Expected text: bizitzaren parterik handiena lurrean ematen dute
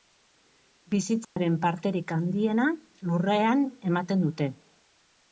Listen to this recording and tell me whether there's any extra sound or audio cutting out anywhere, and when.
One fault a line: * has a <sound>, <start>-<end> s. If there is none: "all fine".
* has a dropout, 1.2-1.4 s